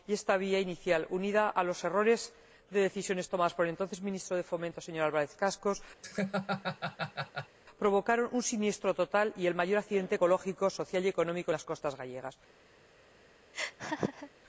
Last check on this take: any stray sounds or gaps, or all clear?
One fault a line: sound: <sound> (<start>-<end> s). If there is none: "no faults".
sound: laugh (6.0-7.6 s)
sound: laugh (13.5-14.3 s)